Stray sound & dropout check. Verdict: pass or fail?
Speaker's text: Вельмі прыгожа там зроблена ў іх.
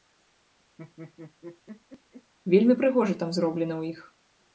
fail